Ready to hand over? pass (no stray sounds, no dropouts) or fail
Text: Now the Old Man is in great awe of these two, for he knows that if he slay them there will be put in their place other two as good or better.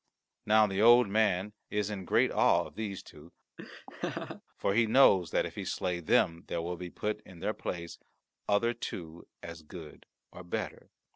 fail